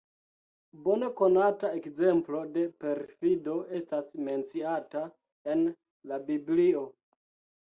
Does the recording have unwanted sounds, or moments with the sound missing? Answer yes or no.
no